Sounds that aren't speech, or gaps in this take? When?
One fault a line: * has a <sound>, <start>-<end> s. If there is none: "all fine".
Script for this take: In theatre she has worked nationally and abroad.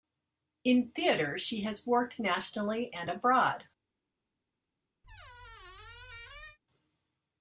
* has a squeak, 5.0-6.6 s